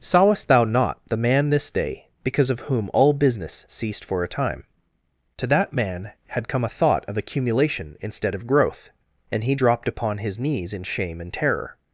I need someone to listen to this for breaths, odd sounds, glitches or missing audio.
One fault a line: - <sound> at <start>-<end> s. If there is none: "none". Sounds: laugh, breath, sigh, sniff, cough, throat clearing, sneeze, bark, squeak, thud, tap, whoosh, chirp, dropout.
none